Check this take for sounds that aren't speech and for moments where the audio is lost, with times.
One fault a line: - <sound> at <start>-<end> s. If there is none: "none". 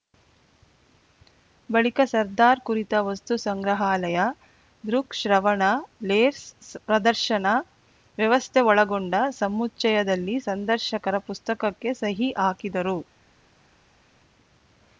none